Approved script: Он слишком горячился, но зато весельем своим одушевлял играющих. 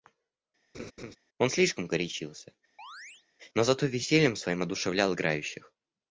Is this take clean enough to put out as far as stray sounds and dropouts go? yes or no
no